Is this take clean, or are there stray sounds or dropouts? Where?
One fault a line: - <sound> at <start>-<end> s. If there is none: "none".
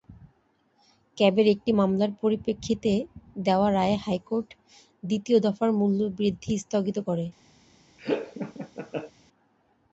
- laugh at 8.0-9.1 s